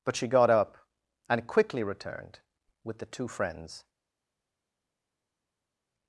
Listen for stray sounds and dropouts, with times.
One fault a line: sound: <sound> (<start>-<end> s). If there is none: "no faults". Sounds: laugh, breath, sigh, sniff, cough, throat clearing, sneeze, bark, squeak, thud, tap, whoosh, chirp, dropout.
no faults